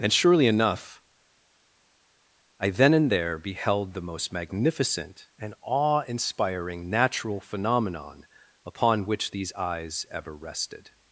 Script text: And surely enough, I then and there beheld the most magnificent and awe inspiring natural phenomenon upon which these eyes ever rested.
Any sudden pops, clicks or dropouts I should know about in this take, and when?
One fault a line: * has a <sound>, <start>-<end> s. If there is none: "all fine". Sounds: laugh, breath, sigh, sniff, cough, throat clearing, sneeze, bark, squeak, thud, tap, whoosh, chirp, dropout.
all fine